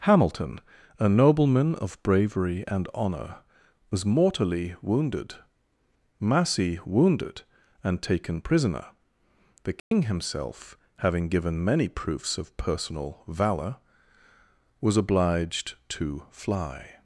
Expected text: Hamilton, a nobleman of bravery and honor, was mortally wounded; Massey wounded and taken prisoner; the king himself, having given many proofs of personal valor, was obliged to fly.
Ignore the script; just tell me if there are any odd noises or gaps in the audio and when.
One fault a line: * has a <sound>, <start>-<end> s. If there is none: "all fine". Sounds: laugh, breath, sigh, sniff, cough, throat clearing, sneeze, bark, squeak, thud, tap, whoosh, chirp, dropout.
* has a dropout, 9.8-9.9 s